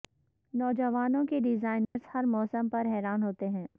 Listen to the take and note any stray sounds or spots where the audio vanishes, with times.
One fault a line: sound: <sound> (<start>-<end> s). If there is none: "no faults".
sound: dropout (1.8-2.0 s)